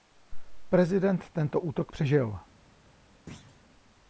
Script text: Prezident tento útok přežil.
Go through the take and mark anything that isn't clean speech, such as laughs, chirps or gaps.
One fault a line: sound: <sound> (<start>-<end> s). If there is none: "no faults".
sound: thud (3.3-3.6 s)